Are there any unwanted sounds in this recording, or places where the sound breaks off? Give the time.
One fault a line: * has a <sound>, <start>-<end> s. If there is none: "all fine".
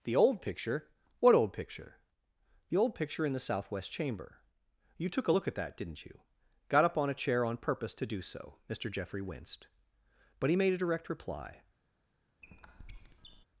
* has a squeak, 12.4-13.4 s